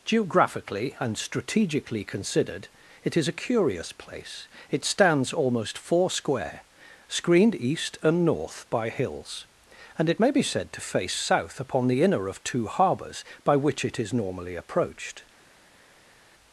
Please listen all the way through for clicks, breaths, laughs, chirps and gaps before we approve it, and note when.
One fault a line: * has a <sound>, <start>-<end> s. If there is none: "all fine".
all fine